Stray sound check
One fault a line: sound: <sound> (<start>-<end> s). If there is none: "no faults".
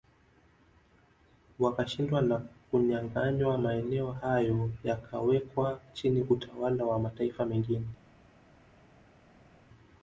no faults